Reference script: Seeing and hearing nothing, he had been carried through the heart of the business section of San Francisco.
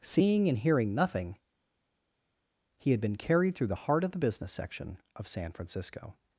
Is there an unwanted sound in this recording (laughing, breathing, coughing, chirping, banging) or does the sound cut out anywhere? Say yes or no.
no